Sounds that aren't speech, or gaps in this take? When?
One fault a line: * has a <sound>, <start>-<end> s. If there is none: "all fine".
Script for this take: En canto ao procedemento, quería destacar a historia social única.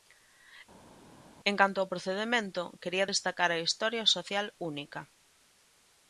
all fine